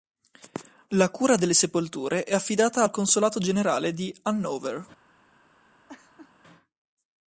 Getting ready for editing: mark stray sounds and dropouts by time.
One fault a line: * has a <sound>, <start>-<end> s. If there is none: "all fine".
* has a laugh, 5.9-6.3 s